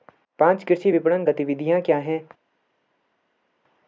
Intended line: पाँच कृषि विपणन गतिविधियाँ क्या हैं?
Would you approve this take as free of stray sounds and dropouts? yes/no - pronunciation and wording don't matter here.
yes